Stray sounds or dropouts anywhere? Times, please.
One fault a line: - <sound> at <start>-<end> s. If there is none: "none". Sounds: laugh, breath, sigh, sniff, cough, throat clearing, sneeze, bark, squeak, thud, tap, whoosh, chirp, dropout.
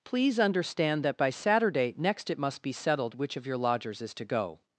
none